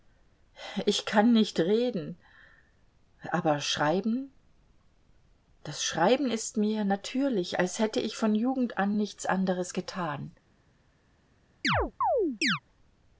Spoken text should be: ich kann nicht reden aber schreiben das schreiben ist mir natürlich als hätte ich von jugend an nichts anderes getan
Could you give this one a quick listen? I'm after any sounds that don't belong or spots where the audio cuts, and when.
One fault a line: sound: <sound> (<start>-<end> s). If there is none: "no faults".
sound: chirp (11.6-12.6 s)